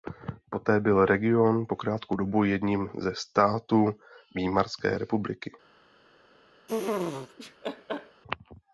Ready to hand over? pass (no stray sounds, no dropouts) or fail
fail